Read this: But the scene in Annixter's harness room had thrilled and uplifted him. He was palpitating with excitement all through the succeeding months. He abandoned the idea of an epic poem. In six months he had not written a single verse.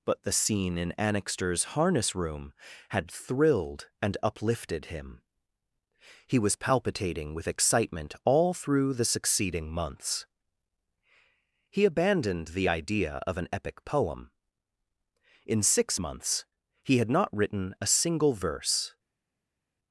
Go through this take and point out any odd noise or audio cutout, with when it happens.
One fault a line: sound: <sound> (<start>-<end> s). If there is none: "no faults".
no faults